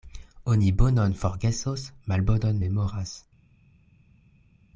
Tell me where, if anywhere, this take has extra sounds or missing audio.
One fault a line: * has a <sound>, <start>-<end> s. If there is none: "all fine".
all fine